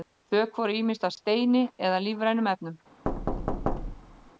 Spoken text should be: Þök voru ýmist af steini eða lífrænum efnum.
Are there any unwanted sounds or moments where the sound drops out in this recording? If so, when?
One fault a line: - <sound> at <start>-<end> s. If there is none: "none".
- thud at 3.1-4.3 s